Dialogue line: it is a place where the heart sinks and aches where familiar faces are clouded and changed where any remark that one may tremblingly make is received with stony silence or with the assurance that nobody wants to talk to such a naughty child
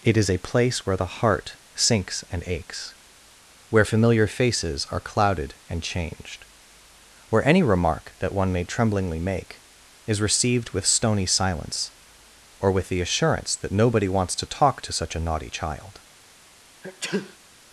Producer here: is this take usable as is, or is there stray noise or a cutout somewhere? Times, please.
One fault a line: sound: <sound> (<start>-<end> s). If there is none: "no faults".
sound: sneeze (16.8-17.4 s)